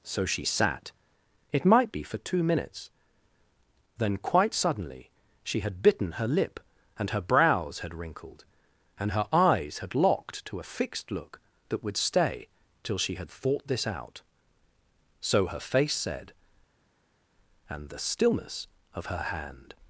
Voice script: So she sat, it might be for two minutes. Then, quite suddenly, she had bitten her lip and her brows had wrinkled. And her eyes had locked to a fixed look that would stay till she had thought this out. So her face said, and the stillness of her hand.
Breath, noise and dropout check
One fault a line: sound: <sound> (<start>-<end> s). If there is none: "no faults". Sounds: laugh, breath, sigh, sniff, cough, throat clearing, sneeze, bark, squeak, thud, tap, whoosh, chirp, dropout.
no faults